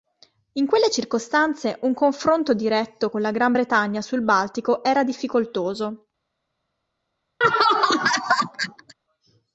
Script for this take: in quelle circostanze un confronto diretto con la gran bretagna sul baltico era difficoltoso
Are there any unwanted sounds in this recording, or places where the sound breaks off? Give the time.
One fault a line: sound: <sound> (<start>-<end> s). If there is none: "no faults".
sound: laugh (7.4-8.9 s)